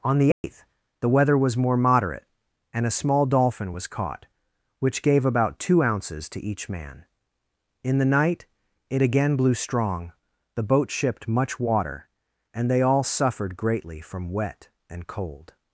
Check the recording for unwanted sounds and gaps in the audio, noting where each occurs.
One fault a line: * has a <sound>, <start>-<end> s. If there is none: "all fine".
* has a dropout, 0.3-0.4 s